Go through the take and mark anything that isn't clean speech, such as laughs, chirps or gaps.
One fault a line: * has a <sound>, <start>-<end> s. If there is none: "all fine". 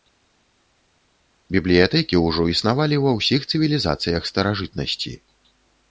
all fine